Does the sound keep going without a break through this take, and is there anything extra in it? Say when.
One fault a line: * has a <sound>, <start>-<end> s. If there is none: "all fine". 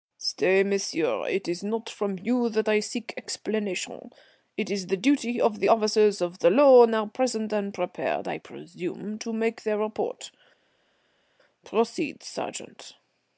all fine